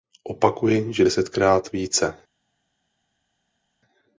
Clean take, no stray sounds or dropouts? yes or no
yes